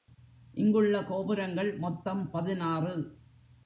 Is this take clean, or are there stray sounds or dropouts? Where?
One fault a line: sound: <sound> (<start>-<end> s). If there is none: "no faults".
no faults